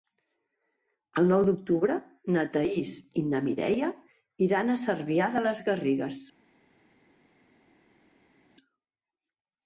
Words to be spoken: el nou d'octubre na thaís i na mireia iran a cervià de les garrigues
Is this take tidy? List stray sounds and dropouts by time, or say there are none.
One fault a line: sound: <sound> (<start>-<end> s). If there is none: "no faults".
no faults